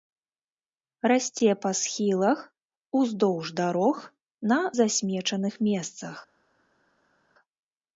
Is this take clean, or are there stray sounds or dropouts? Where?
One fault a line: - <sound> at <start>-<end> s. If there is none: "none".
none